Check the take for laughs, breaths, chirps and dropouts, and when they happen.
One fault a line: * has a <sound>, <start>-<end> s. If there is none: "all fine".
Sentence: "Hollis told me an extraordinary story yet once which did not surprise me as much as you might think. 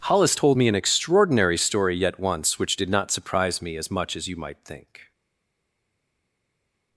all fine